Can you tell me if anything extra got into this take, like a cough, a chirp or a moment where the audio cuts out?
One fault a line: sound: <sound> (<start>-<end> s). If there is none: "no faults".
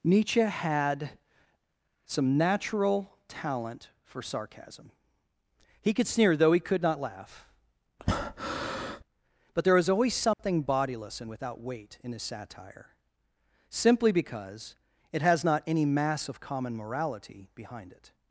sound: breath (8.0-9.0 s)
sound: dropout (10.3-10.4 s)